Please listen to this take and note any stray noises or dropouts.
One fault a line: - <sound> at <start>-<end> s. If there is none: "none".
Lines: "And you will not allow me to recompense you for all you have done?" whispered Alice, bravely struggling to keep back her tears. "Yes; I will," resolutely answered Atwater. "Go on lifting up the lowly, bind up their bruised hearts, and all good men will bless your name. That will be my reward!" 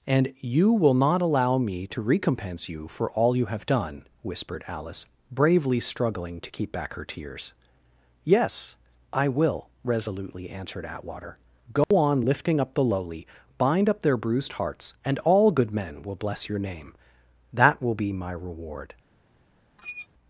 - dropout at 11.8-11.9 s
- squeak at 19.8-20.1 s